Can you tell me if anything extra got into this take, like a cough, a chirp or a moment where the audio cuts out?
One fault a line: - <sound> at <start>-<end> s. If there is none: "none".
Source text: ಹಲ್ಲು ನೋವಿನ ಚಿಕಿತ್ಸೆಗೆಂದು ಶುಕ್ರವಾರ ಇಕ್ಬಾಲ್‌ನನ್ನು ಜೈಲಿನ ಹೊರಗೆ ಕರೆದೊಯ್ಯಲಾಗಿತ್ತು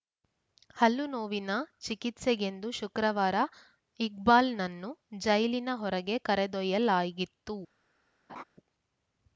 - laugh at 8.3-8.4 s